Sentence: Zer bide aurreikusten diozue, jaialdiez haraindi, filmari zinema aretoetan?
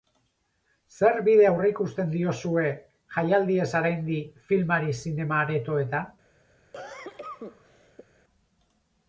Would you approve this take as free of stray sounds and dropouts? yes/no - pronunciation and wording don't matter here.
no